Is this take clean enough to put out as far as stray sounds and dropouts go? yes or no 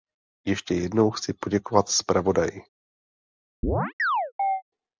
no